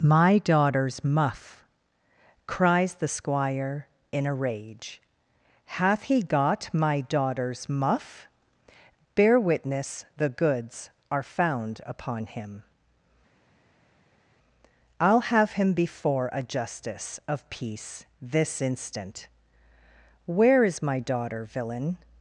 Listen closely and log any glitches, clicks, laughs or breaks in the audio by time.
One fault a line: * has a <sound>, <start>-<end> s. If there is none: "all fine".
all fine